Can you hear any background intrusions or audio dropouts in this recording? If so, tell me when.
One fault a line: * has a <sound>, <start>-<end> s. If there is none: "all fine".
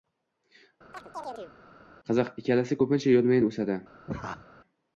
* has a chirp, 0.9-1.5 s
* has a laugh, 4.1-4.5 s